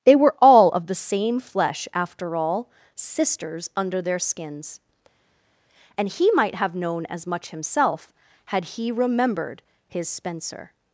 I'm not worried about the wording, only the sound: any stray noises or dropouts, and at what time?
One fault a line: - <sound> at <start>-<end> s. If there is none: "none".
none